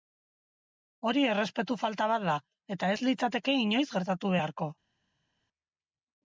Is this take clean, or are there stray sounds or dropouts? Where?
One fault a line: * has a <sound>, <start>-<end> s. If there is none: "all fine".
all fine